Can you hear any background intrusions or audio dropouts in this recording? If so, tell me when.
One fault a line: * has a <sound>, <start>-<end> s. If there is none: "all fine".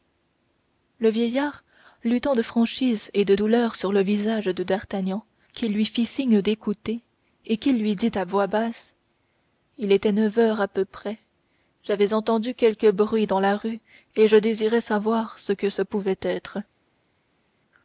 all fine